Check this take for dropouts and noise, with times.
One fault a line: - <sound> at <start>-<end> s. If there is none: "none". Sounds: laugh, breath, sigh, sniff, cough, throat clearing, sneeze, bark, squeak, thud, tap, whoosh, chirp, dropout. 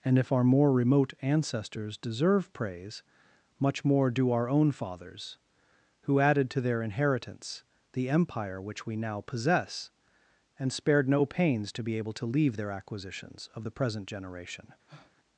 - breath at 14.9-15.2 s